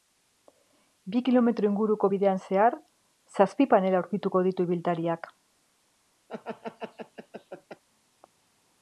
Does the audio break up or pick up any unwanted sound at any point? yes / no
yes